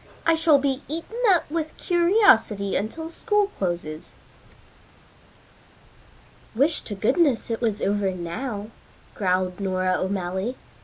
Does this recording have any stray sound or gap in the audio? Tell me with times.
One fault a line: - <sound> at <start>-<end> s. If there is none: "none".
none